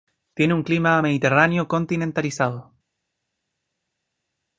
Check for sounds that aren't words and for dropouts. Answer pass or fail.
pass